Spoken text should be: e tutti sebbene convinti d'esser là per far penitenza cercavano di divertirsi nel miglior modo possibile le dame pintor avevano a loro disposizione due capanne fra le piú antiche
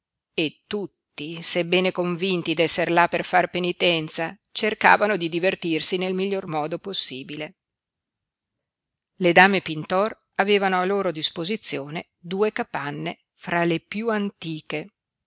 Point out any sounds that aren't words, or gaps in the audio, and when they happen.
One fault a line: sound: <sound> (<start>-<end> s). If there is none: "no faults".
no faults